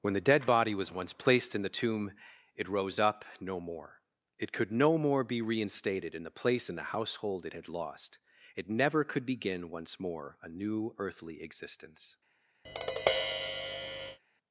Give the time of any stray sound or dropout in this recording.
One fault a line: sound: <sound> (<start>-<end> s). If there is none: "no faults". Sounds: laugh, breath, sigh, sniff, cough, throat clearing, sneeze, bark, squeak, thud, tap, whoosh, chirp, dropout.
sound: tap (12.6-14.2 s)